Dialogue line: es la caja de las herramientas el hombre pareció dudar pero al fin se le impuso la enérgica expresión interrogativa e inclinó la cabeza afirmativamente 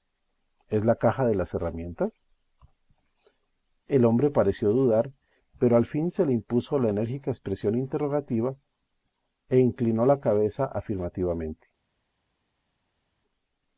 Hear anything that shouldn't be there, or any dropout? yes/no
no